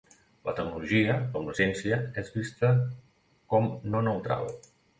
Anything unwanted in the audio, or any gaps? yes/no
no